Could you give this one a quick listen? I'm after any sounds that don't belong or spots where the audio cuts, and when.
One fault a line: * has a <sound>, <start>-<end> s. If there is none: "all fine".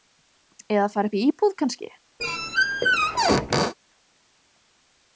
* has a squeak, 2.2-3.7 s